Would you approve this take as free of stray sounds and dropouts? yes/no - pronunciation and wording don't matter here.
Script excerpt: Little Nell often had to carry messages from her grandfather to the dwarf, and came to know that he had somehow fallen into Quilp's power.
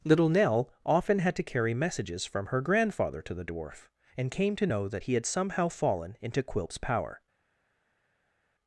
yes